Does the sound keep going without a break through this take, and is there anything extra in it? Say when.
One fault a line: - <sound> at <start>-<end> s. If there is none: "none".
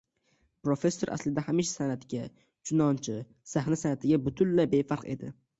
none